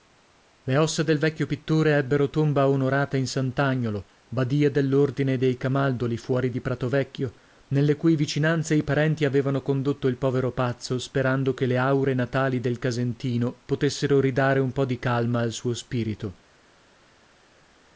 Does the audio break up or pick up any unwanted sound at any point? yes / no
no